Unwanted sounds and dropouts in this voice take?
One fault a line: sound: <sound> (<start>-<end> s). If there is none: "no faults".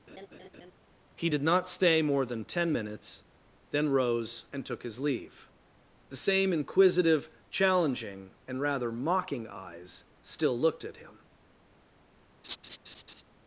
sound: laugh (0.1-0.7 s)
sound: laugh (12.4-13.2 s)